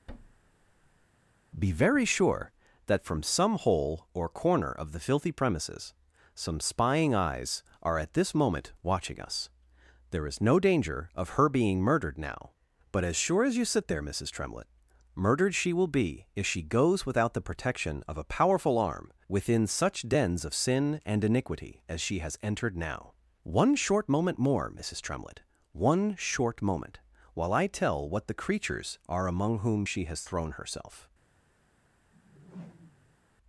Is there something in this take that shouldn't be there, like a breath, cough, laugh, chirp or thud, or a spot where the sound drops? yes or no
yes